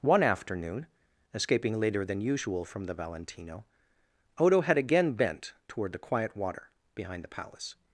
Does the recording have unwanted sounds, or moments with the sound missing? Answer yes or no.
no